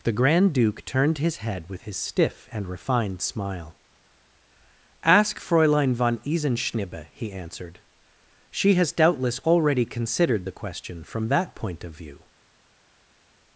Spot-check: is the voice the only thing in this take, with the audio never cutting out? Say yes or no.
yes